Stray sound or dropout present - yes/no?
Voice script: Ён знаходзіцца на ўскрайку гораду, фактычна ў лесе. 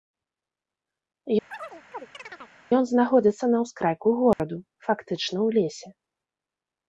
yes